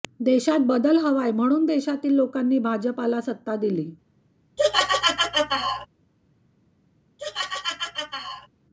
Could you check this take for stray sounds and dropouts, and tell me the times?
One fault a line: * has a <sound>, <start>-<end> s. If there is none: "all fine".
* has a laugh, 4.6-5.9 s
* has a laugh, 7.2-8.5 s